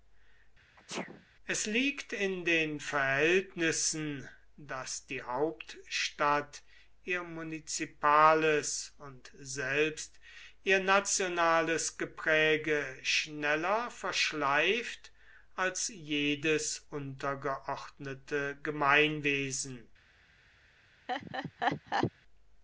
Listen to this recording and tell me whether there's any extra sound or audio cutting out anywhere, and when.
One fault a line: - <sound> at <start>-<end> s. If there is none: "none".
- sneeze at 0.8-1.3 s
- laugh at 21.1-22.1 s